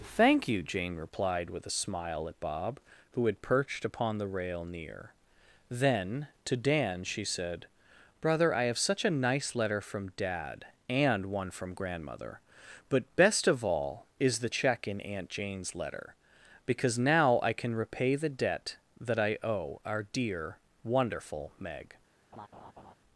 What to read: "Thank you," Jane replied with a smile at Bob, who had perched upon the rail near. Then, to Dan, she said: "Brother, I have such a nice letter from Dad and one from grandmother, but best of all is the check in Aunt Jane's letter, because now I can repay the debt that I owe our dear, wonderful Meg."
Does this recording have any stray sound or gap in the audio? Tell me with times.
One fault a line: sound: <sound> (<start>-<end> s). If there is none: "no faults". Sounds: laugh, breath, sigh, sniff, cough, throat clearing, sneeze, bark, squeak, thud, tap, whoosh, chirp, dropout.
sound: laugh (22.3-22.9 s)